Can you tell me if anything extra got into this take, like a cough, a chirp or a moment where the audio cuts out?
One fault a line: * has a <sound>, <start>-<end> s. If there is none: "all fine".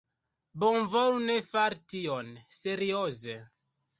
all fine